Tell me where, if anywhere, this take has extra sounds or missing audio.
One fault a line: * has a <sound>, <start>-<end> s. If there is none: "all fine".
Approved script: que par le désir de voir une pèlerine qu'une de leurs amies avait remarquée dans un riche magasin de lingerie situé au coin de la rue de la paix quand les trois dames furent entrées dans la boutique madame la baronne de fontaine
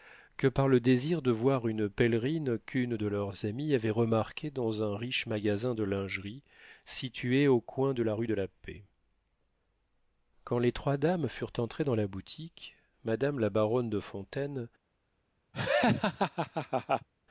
* has a laugh, 15.5-17.1 s